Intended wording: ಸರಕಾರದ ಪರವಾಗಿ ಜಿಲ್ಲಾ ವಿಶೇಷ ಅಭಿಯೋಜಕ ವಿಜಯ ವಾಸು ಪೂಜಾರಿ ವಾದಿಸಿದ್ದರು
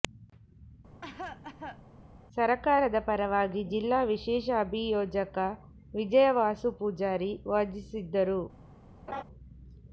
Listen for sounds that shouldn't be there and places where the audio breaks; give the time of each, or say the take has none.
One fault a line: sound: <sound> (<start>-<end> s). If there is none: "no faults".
sound: cough (1.0-1.8 s)
sound: laugh (9.1-9.2 s)